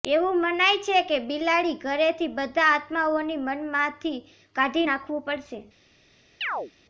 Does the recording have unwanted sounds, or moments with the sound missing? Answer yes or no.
yes